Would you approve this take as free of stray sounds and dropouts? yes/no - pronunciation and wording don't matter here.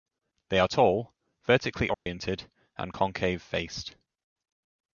no